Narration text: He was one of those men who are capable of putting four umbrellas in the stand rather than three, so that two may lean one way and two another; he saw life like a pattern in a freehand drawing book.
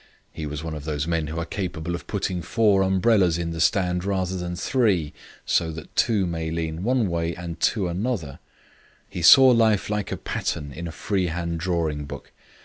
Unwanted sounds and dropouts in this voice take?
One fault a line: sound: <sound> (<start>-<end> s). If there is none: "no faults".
no faults